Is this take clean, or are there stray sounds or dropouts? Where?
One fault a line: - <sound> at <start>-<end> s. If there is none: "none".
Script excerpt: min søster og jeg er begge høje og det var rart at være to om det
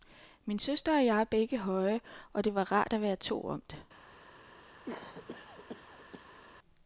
- cough at 4.9-6.4 s